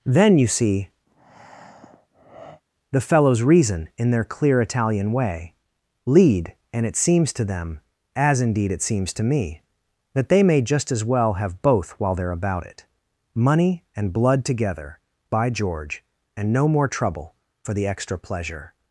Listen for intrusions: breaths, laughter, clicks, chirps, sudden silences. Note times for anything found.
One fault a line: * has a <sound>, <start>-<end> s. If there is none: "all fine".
* has a breath, 1.1-2.6 s